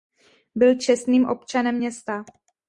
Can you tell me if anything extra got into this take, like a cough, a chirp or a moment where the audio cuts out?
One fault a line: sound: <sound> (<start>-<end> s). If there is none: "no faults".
no faults